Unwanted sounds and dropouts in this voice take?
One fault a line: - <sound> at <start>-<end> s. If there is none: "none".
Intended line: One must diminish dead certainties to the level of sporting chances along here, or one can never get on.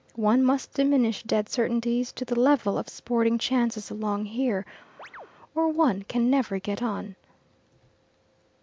- chirp at 5.0-5.3 s